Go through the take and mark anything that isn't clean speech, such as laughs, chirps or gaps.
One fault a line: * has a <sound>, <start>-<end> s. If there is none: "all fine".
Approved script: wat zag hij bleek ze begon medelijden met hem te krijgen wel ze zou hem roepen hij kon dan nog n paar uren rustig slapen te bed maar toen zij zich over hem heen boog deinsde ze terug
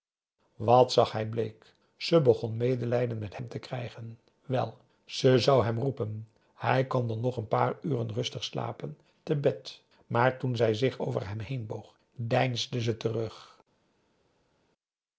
all fine